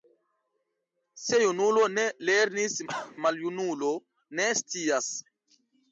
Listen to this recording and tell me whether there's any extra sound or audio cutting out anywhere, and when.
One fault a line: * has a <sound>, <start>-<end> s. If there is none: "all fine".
* has a cough, 2.9-3.1 s